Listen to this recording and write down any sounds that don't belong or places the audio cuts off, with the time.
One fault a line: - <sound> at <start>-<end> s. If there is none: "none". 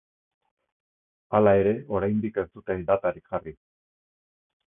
none